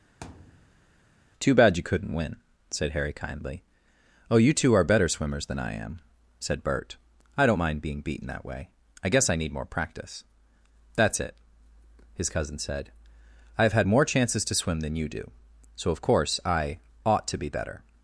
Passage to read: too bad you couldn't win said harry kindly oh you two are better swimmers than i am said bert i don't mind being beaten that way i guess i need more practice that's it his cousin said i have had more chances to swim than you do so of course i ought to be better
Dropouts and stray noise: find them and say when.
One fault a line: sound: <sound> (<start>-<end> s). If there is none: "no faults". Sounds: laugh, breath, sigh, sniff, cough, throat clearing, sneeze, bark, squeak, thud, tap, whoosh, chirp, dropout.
sound: thud (0.2-1.0 s)